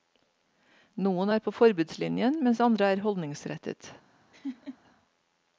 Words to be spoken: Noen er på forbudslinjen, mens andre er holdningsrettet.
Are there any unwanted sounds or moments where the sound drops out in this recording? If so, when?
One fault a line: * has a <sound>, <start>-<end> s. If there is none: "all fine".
* has a laugh, 4.3-4.8 s